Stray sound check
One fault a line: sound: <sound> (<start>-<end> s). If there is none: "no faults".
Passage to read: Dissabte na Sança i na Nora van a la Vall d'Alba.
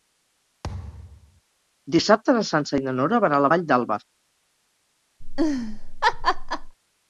sound: thud (0.6-1.4 s)
sound: laugh (5.2-6.7 s)